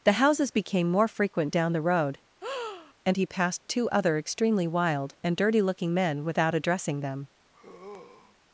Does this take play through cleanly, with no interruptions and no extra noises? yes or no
no